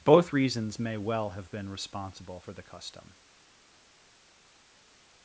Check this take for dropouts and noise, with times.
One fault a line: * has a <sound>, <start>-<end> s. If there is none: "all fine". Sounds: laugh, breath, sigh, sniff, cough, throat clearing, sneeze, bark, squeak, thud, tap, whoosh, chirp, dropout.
all fine